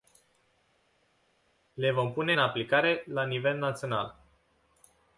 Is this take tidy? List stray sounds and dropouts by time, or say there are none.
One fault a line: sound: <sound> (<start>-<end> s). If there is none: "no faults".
no faults